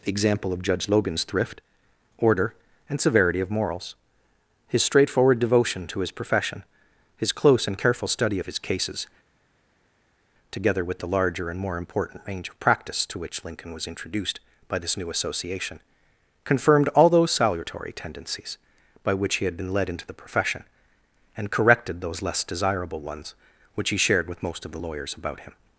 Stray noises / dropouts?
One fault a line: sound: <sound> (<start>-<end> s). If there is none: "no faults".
no faults